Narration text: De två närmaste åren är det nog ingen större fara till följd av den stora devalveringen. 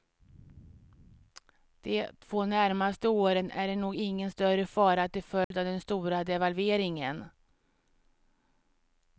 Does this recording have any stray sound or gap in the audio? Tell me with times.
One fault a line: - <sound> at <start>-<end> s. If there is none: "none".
- dropout at 5.4-5.5 s